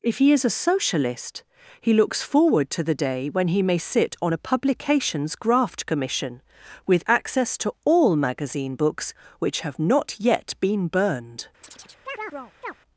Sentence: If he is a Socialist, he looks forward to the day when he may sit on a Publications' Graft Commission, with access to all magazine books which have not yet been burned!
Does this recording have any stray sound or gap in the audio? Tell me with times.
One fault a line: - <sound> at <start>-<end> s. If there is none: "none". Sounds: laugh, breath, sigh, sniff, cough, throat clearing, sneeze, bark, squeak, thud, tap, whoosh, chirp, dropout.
- chirp at 11.6-12.7 s